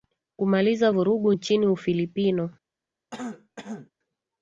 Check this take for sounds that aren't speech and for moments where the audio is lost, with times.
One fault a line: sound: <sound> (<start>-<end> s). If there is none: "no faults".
sound: throat clearing (3.1-3.9 s)